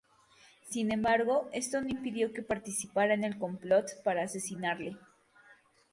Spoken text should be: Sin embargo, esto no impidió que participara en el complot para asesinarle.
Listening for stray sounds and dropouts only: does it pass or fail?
pass